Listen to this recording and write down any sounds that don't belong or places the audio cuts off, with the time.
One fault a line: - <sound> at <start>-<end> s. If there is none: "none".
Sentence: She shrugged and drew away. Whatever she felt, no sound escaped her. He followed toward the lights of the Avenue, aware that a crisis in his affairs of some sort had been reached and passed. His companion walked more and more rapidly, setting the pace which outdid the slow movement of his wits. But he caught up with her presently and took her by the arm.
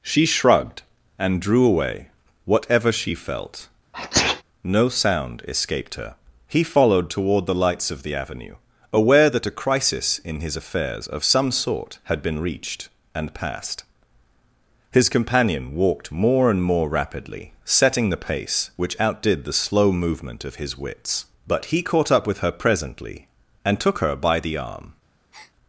- sneeze at 3.9-4.4 s
- breath at 25.3-25.5 s